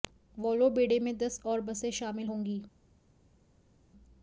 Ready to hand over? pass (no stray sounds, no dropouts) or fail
pass